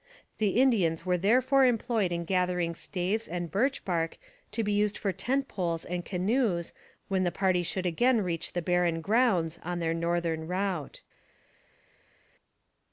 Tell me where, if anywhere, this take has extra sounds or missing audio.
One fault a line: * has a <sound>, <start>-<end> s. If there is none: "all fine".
all fine